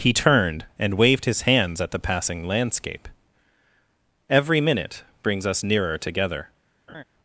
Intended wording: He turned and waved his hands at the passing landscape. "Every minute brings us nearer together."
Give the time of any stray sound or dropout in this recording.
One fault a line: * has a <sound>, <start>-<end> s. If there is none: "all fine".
* has a laugh, 6.9-7.0 s